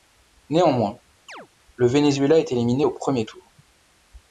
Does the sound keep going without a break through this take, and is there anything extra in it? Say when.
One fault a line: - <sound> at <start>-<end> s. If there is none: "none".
- chirp at 1.3-1.5 s